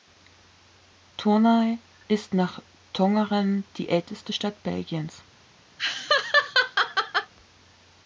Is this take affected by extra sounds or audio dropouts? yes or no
yes